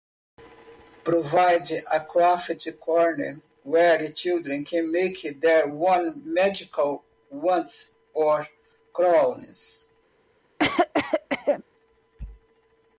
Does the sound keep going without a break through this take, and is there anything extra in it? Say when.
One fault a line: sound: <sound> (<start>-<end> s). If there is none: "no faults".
sound: cough (10.6-11.6 s)